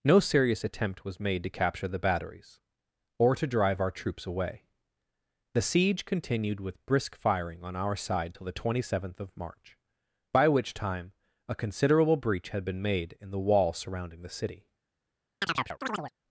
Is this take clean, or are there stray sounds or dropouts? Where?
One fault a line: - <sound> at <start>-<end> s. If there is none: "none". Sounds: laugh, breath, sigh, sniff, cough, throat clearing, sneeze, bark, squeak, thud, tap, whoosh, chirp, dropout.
- chirp at 15.4-16.1 s